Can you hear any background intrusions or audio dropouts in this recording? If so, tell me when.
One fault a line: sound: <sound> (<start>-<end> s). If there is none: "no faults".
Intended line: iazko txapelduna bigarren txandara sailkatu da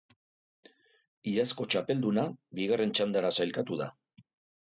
no faults